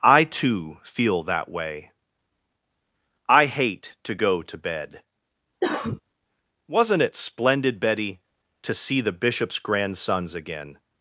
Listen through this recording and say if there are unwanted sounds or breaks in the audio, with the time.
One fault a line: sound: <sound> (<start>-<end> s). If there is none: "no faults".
sound: cough (5.6-6.0 s)